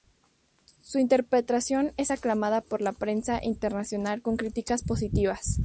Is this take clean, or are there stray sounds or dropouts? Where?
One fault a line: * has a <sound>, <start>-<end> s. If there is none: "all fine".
all fine